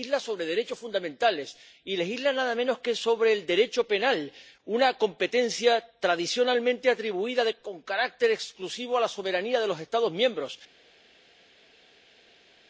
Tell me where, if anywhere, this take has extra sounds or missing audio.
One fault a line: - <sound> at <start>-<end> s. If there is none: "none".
none